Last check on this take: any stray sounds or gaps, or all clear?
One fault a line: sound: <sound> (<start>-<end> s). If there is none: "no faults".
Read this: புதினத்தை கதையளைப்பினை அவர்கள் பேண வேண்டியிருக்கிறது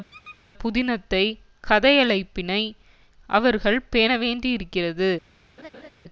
sound: squeak (0.1-0.4 s)
sound: laugh (5.6-5.9 s)